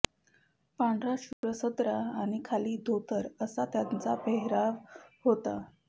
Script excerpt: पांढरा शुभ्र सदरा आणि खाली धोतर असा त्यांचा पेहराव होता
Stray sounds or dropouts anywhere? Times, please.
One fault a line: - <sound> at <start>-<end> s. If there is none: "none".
- dropout at 1.3-1.4 s